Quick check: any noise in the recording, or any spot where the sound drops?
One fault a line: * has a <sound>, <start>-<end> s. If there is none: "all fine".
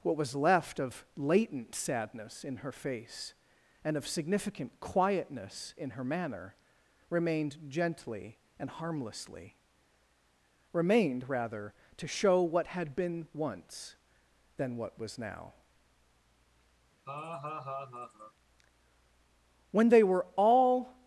* has a laugh, 17.1-18.3 s